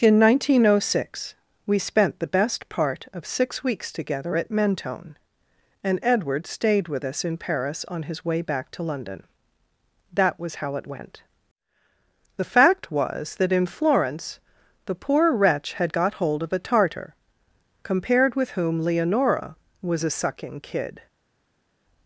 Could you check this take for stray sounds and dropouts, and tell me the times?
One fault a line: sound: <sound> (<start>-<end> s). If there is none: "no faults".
no faults